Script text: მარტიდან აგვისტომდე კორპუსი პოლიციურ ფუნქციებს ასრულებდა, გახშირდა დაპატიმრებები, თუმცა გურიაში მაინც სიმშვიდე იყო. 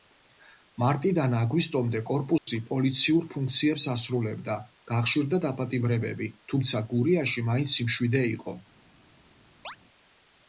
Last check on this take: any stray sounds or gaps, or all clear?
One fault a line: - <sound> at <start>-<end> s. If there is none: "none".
- dropout at 2.4-2.5 s
- chirp at 9.6-9.8 s